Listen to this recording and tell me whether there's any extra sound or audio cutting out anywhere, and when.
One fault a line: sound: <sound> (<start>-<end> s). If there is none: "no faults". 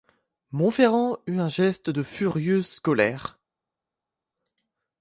no faults